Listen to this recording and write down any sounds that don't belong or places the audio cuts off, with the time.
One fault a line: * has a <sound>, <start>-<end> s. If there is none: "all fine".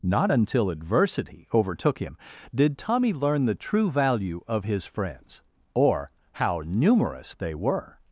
all fine